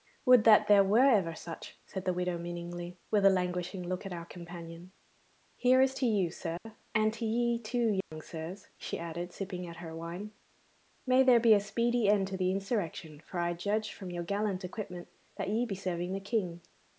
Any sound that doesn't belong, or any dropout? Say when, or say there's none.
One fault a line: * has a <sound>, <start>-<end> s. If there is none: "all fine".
* has a dropout, 6.6-6.7 s
* has a dropout, 8.0-8.1 s